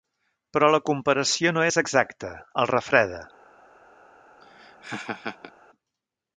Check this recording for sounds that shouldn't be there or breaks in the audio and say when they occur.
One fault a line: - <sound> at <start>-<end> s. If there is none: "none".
- laugh at 4.4-5.5 s